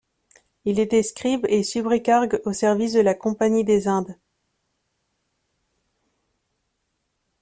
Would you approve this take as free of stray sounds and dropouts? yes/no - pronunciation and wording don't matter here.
yes